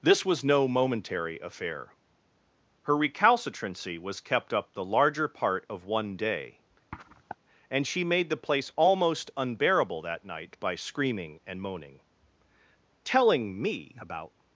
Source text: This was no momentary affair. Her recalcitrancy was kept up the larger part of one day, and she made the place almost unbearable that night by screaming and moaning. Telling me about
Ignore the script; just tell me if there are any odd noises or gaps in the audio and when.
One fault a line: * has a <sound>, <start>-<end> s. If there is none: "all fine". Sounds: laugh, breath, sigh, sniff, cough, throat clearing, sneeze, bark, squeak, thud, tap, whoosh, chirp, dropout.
* has a sniff, 6.9-7.4 s